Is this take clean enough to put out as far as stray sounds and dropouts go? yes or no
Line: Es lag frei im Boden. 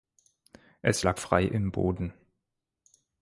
yes